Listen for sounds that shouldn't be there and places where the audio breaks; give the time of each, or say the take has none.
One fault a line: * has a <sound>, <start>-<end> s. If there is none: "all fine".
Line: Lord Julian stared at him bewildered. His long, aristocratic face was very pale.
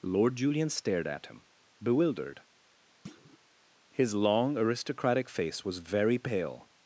* has a thud, 3.0-3.4 s